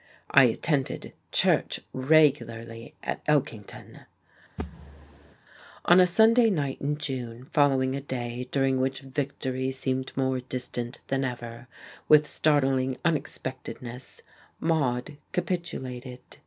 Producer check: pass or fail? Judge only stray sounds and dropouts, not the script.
fail